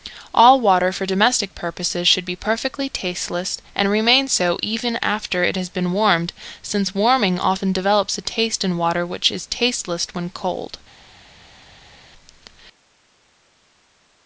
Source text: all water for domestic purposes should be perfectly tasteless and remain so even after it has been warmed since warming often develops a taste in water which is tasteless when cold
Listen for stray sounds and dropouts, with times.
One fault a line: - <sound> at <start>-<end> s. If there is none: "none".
none